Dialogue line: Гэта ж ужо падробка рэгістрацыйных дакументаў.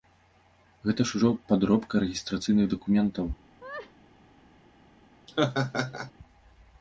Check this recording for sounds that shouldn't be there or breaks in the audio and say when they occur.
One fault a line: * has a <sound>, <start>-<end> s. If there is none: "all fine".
* has a laugh, 3.6-3.9 s
* has a laugh, 5.3-6.1 s